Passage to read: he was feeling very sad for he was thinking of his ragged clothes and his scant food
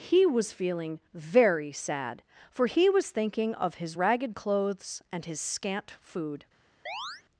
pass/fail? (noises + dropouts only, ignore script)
fail